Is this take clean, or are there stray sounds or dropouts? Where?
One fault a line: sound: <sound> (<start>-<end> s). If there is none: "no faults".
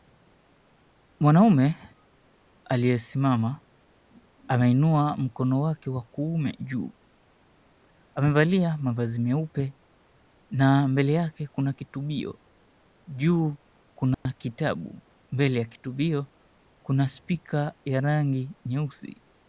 sound: dropout (14.1-14.3 s)